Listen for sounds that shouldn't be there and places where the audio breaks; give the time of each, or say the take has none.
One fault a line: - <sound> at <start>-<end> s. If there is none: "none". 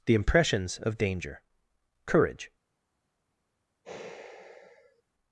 - sigh at 3.8-5.0 s